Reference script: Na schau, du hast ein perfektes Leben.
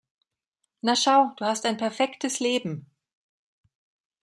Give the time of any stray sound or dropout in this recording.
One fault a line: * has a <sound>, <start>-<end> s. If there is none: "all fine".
all fine